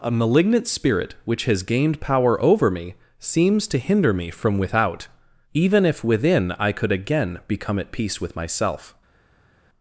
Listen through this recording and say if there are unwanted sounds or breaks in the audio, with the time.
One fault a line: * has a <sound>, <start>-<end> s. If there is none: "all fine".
all fine